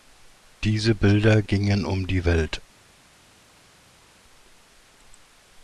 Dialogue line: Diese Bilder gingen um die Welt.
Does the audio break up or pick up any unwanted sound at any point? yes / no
no